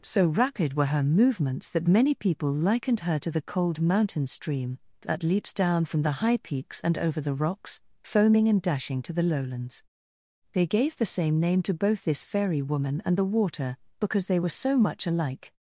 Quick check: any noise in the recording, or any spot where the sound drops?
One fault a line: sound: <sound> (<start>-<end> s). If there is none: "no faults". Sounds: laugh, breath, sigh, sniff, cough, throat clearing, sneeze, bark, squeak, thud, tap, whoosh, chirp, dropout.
no faults